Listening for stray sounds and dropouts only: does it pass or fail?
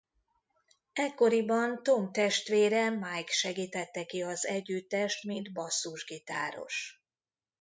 pass